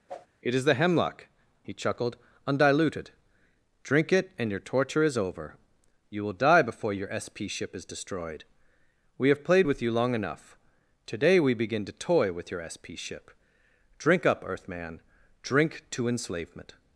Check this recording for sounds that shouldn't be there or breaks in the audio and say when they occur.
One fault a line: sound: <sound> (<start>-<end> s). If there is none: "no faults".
sound: whoosh (0.1-0.3 s)